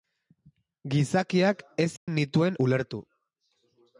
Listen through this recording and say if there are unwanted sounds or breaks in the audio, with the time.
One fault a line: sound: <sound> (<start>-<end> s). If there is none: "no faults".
sound: dropout (2.0-2.1 s)